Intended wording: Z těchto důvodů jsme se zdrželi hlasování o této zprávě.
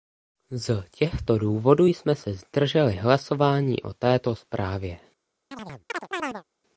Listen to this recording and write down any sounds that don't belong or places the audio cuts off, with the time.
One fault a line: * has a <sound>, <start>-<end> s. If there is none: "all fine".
* has a chirp, 5.5-6.4 s